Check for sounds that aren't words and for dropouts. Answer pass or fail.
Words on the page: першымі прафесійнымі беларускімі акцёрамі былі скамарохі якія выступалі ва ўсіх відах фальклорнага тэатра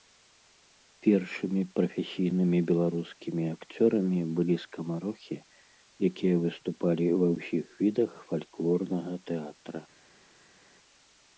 pass